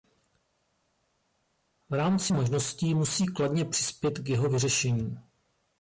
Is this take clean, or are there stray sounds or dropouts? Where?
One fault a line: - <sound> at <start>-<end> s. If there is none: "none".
none